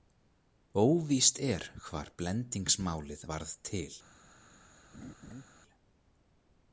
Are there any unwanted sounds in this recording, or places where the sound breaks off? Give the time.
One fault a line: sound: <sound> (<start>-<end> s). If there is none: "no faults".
sound: laugh (4.9-5.4 s)